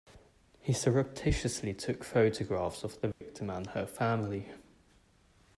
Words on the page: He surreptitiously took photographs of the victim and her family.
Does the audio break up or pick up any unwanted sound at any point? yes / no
yes